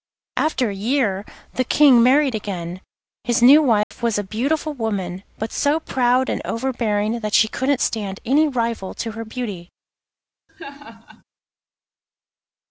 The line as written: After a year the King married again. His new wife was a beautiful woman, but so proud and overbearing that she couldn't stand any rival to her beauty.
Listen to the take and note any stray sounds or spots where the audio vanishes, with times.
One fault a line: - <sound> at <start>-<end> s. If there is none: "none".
- dropout at 3.8-3.9 s
- laugh at 10.5-11.2 s